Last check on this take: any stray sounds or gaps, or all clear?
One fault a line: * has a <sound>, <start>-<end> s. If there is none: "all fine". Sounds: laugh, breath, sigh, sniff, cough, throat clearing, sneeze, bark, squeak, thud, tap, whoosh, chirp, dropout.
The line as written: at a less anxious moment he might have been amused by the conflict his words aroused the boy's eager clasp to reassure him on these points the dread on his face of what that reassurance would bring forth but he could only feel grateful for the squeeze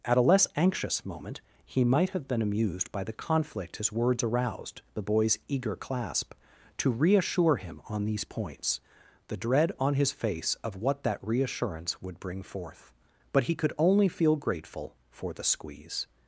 all fine